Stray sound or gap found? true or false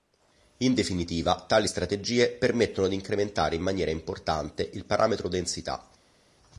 false